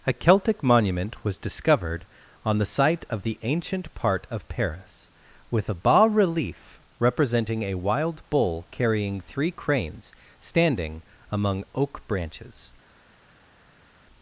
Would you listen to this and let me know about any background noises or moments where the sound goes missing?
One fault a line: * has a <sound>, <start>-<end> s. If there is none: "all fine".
all fine